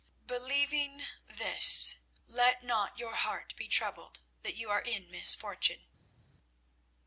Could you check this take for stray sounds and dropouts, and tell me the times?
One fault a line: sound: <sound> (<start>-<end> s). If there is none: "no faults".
no faults